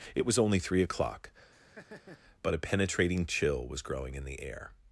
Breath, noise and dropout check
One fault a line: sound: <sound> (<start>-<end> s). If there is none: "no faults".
sound: laugh (1.5-2.2 s)